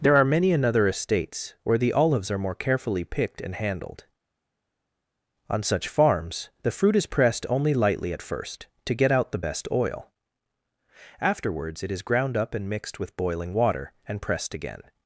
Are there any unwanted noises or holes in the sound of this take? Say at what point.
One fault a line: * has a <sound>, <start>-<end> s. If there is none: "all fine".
all fine